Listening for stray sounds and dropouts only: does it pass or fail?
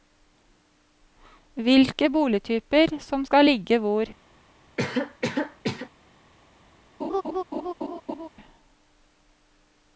fail